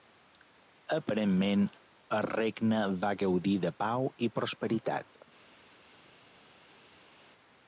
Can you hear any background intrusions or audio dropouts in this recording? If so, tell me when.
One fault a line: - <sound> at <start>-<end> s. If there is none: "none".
none